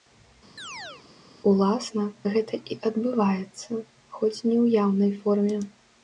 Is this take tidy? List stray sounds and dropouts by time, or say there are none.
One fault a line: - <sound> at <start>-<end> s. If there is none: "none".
- chirp at 0.6-1.1 s